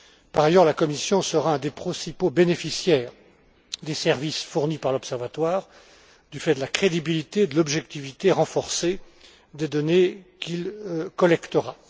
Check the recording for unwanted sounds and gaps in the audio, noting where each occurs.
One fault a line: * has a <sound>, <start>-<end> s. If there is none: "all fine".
all fine